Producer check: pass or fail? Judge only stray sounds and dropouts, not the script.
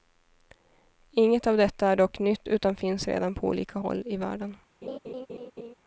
fail